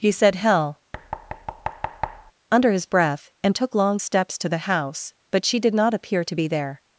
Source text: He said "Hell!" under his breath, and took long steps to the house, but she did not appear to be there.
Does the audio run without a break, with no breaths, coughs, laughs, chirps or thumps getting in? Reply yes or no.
no